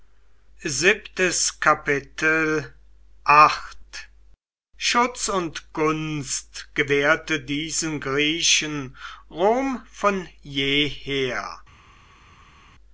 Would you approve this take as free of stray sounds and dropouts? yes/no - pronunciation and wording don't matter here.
yes